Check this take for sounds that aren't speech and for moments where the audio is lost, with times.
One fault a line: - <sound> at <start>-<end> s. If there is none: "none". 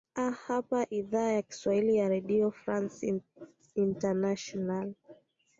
none